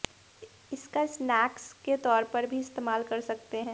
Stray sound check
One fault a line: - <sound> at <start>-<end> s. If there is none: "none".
none